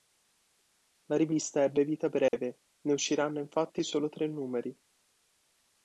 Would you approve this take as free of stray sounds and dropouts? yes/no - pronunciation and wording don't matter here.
no